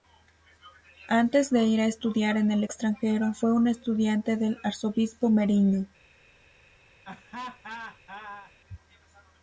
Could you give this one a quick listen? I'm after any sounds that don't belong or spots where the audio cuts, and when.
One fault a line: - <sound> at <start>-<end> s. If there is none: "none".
- laugh at 7.0-8.5 s